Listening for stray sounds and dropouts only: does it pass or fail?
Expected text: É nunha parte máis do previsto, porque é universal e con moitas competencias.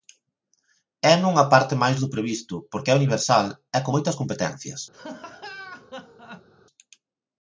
fail